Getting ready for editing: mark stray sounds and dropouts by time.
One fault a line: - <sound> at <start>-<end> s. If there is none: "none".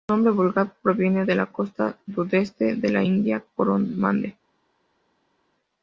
none